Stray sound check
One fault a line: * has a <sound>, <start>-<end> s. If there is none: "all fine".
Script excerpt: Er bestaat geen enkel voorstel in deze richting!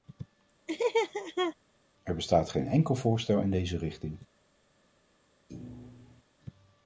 * has a laugh, 0.7-1.6 s
* has a thud, 5.5-6.2 s